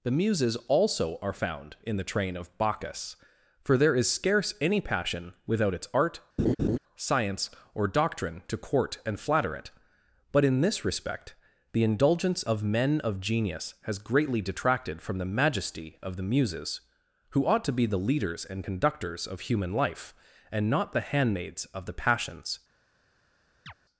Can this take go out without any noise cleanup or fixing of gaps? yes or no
no